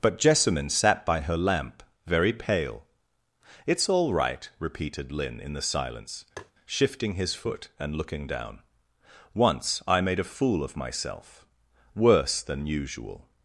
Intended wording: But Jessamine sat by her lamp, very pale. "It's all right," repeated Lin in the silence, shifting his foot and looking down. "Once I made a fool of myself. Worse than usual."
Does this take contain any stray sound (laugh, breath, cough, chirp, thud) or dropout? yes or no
yes